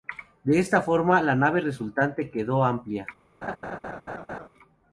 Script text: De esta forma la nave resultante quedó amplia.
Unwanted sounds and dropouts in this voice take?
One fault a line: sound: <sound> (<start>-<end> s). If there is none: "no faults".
sound: laugh (3.4-4.5 s)